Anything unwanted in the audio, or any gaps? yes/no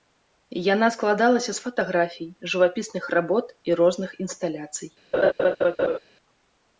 yes